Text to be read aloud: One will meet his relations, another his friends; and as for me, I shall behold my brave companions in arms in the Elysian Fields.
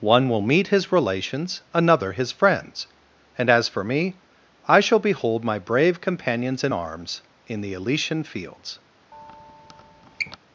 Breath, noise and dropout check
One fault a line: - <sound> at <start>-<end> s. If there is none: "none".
- squeak at 9.1-10.4 s